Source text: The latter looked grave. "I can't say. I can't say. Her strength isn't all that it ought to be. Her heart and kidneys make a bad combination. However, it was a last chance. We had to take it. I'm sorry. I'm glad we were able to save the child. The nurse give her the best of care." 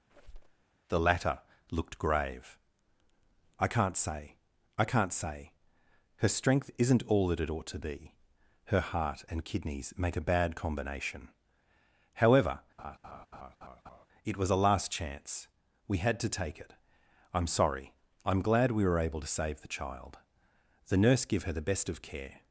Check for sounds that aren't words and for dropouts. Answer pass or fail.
fail